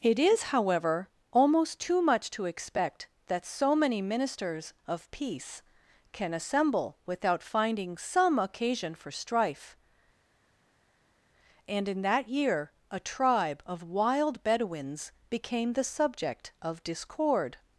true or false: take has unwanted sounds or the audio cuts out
false